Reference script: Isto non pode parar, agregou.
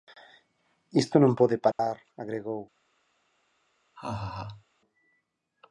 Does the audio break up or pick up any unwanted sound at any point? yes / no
yes